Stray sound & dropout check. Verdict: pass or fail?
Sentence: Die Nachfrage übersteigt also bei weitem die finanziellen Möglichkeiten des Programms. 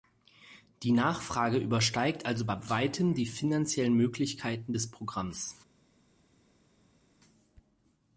pass